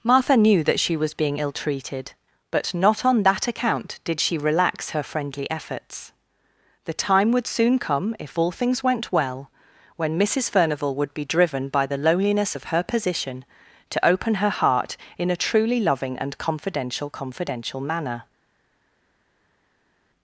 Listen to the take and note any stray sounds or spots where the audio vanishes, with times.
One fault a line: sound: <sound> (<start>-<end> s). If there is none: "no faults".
no faults